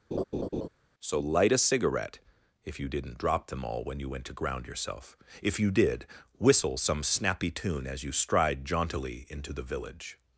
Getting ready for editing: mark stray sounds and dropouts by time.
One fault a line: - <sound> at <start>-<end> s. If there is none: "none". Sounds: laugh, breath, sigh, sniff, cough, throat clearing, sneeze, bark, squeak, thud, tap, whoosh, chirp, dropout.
- laugh at 0.1-0.7 s